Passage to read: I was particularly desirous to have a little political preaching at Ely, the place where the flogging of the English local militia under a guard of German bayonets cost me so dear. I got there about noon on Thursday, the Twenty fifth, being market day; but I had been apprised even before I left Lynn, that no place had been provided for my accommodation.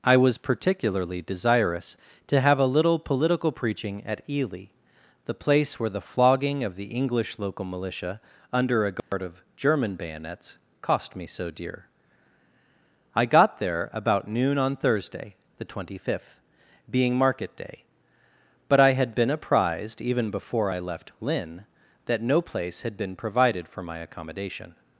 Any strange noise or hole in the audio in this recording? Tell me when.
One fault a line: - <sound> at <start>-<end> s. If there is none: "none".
- dropout at 9.0-9.1 s